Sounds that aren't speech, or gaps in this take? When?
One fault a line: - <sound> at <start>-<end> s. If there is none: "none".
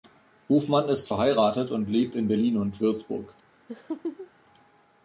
- laugh at 3.7-4.3 s